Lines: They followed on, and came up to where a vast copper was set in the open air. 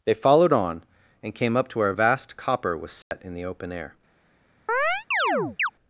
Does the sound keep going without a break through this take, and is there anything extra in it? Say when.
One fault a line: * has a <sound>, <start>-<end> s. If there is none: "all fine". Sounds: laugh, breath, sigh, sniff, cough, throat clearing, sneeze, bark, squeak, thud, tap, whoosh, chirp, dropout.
* has a dropout, 3.0-3.1 s
* has a chirp, 4.7-5.7 s